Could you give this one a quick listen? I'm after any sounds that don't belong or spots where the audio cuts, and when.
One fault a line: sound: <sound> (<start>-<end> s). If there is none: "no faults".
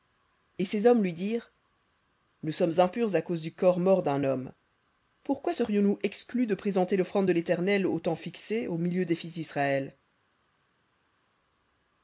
no faults